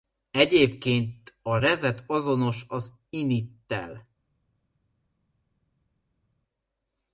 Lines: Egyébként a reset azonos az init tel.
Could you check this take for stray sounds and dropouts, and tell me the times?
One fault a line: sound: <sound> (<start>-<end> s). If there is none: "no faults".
no faults